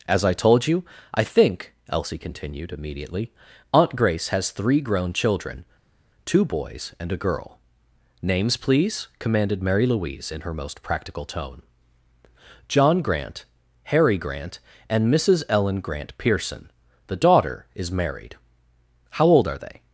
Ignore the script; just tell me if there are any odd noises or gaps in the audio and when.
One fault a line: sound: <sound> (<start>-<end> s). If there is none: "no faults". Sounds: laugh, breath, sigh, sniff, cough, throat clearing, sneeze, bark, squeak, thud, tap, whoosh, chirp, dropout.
no faults